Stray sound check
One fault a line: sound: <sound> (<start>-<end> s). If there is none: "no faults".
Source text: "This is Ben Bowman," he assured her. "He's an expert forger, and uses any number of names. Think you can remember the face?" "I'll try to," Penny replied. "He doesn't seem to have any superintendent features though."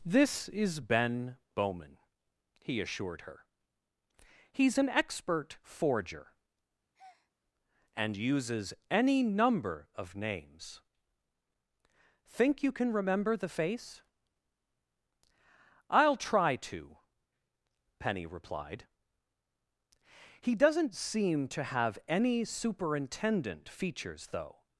sound: breath (6.9-7.3 s)